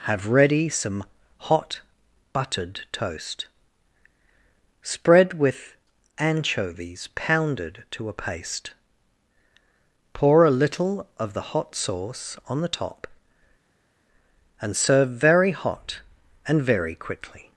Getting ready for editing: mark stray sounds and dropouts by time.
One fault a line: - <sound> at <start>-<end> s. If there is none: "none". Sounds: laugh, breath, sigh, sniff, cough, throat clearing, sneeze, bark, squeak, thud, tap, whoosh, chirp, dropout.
none